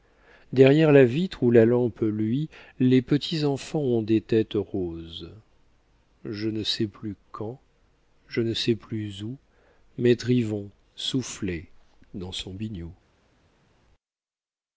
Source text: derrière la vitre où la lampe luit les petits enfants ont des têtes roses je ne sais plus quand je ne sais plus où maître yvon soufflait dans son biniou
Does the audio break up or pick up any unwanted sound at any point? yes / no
no